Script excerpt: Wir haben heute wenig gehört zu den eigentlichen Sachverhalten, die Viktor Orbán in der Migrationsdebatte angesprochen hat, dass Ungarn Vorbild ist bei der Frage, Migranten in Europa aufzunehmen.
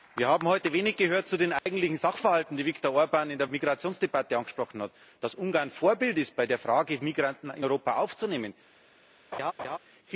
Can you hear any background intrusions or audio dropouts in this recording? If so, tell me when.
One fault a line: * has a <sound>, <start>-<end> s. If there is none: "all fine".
* has a dropout, 1.6-1.7 s
* has a laugh, 9.3-9.8 s